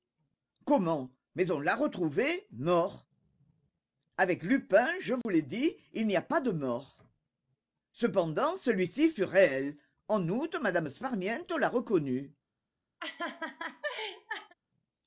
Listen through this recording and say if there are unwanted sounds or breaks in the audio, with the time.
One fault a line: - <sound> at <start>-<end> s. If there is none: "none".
- dropout at 5.2-5.3 s
- laugh at 13.0-14.5 s